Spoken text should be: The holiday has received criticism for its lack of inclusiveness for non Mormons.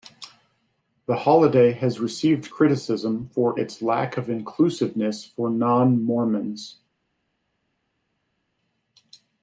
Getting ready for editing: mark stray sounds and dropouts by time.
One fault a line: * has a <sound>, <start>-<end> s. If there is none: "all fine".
all fine